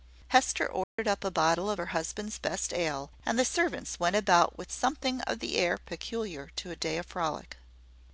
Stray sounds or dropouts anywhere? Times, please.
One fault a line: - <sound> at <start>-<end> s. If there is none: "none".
- dropout at 0.8-1.0 s